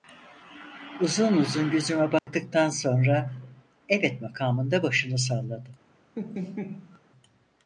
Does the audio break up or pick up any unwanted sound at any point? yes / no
yes